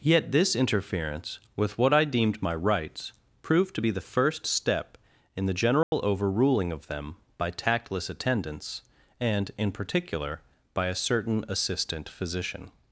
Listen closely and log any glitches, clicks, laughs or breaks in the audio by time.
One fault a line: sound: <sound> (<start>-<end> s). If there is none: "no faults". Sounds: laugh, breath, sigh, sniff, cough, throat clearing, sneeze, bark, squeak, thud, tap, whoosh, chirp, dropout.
sound: dropout (5.8-5.9 s)